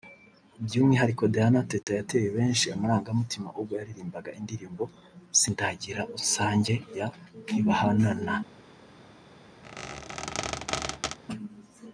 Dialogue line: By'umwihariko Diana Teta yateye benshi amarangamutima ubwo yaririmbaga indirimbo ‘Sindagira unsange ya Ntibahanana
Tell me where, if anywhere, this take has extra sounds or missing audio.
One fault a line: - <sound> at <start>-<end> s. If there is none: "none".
- dropout at 1.8-1.9 s
- squeak at 9.6-11.2 s